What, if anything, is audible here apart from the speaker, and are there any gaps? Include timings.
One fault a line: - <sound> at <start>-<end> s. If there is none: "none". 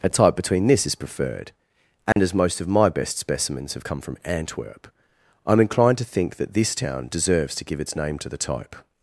- dropout at 2.1-2.2 s